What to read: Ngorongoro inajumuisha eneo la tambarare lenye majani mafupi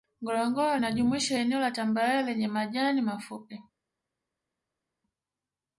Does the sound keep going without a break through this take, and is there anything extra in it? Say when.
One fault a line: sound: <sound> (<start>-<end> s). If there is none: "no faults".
no faults